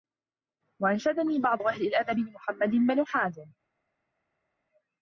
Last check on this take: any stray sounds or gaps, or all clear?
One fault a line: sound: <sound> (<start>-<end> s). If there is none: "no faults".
no faults